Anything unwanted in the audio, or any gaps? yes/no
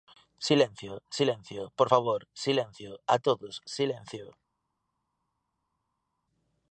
no